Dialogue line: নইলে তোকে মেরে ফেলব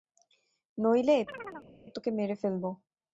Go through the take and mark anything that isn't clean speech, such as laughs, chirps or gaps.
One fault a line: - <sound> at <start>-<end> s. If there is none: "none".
- chirp at 1.3-1.7 s